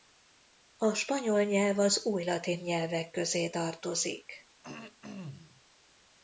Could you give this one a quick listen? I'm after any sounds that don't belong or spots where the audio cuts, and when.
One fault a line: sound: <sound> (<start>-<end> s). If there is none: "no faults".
sound: throat clearing (4.6-5.6 s)